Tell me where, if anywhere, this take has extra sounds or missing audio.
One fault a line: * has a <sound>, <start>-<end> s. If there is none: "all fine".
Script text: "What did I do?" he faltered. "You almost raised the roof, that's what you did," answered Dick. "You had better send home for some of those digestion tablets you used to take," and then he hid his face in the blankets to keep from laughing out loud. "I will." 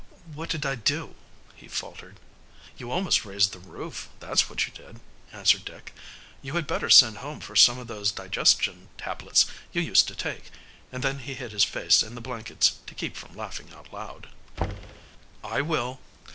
* has a thud, 14.6-15.1 s